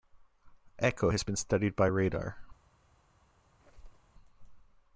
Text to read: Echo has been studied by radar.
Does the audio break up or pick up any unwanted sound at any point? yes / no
yes